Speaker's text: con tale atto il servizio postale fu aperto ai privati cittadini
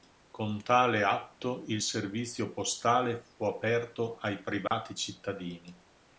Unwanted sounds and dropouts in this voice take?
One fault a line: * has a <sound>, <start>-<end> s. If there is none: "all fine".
* has a dropout, 4.7-4.7 s